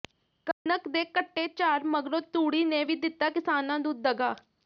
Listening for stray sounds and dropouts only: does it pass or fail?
fail